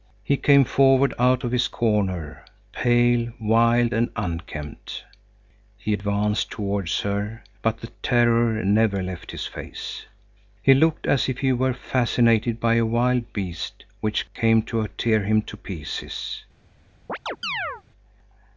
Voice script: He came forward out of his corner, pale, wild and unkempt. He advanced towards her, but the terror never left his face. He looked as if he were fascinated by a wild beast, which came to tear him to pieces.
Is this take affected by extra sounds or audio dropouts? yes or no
yes